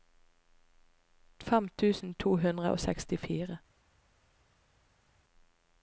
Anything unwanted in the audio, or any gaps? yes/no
no